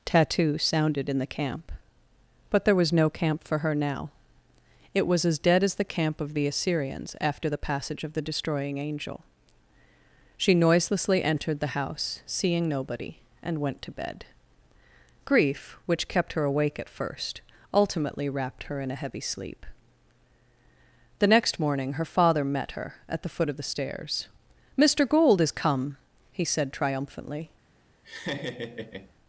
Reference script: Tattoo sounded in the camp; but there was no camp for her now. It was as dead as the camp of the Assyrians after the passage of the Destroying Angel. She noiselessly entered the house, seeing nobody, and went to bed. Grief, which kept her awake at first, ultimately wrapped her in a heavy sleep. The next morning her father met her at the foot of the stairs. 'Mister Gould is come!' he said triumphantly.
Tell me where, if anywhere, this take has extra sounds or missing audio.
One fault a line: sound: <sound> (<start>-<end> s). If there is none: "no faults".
sound: laugh (28.0-29.1 s)